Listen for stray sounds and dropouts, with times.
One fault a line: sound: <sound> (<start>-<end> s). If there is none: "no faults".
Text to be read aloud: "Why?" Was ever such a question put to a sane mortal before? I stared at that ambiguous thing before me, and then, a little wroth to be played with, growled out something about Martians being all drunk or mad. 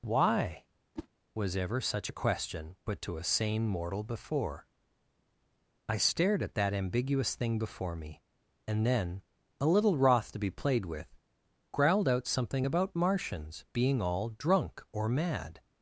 sound: whoosh (1.0-1.1 s)